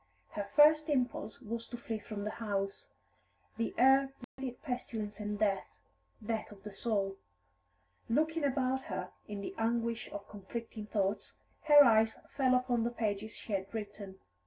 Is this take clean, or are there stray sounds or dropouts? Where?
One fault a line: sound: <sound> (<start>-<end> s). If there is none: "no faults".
sound: dropout (4.2-4.4 s)